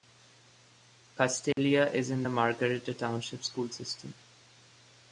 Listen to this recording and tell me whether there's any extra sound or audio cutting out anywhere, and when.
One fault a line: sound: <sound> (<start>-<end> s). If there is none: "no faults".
sound: dropout (1.5-1.6 s)